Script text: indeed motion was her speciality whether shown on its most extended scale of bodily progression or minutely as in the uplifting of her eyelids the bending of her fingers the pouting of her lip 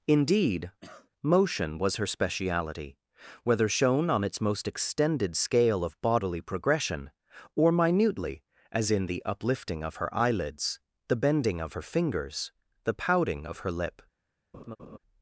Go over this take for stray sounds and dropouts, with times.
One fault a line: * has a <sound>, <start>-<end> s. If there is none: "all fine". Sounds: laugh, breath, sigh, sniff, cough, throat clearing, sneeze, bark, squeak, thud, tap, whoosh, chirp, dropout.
* has a cough, 0.8-1.1 s
* has a laugh, 14.5-15.0 s